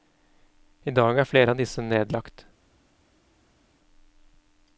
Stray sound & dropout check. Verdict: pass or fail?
pass